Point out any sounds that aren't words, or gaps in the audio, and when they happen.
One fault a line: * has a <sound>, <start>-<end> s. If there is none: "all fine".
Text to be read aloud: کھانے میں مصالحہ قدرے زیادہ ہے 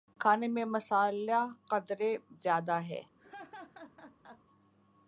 * has a laugh, 3.2-4.4 s